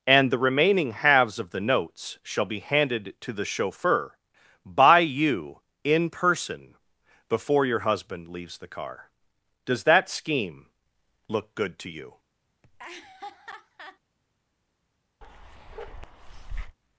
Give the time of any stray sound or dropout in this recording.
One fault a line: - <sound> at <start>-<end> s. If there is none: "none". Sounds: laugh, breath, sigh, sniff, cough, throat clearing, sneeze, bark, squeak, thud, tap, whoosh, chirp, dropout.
- laugh at 12.6-14.0 s
- bark at 15.2-16.8 s